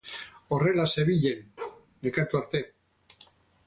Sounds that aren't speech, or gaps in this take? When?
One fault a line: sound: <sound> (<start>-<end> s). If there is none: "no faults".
sound: bark (1.6-1.9 s)